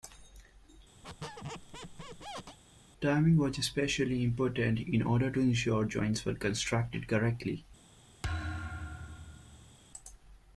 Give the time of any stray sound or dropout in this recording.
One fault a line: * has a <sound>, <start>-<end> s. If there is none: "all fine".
* has a squeak, 1.0-2.6 s
* has a thud, 8.2-9.7 s